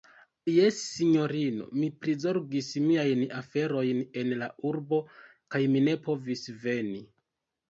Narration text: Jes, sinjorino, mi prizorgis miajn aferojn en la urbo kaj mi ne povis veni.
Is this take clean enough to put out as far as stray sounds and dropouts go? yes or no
yes